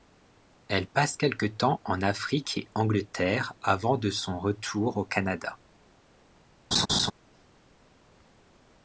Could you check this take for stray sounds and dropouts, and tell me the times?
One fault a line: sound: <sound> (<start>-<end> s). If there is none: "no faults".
sound: laugh (6.7-7.1 s)